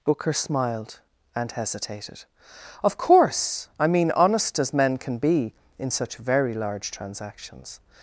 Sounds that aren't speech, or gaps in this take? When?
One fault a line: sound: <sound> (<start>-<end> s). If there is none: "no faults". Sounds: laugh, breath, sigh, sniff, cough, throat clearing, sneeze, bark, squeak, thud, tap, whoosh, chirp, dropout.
no faults